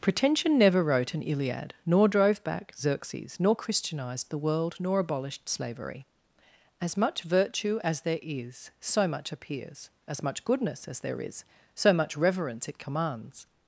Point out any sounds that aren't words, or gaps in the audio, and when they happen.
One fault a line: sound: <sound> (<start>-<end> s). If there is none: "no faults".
no faults